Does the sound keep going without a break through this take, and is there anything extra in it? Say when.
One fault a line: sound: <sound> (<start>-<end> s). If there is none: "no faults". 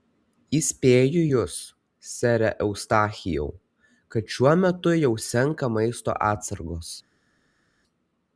no faults